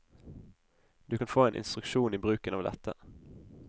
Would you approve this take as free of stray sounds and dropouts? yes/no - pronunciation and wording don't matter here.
yes